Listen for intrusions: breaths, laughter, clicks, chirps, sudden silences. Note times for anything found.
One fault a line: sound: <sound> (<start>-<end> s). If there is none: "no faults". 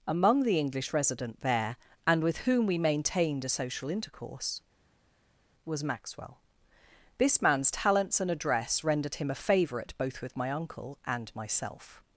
no faults